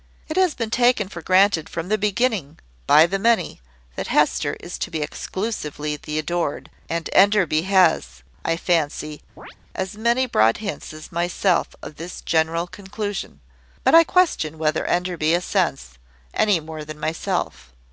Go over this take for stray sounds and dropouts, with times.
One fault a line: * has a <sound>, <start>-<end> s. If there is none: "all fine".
* has a chirp, 9.4-9.6 s